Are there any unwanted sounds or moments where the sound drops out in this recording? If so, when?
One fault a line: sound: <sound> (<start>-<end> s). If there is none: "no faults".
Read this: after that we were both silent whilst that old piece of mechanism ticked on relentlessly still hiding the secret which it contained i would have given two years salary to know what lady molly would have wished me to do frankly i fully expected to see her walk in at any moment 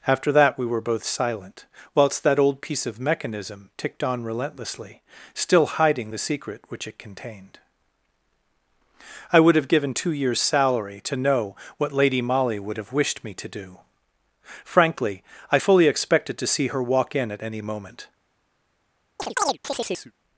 sound: chirp (19.2-20.1 s)